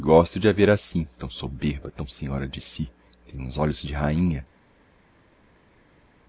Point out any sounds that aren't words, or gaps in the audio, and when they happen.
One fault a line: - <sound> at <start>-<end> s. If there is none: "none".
none